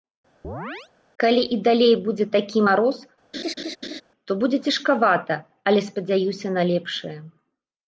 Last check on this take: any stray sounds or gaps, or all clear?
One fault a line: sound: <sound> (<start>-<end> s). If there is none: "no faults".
sound: chirp (0.4-0.9 s)
sound: laugh (3.3-4.0 s)